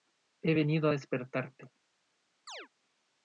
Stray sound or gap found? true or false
true